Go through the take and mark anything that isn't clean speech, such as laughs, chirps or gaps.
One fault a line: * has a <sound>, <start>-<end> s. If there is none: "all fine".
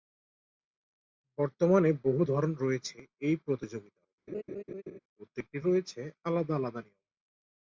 * has a laugh, 4.3-5.0 s